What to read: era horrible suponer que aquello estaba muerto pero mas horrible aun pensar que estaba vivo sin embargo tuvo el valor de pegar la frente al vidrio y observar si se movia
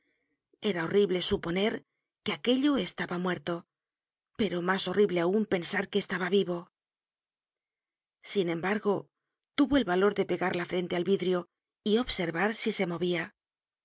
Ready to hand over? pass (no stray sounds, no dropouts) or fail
pass